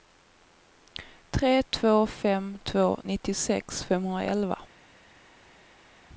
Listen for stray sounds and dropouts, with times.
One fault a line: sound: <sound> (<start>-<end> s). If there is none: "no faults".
no faults